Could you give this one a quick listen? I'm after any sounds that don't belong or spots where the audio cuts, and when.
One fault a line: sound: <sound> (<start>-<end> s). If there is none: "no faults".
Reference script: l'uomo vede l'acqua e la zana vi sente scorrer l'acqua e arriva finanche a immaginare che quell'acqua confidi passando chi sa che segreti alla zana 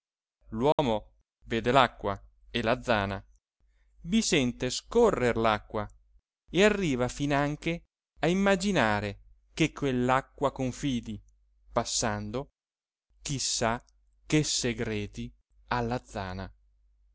sound: dropout (0.7-0.8 s)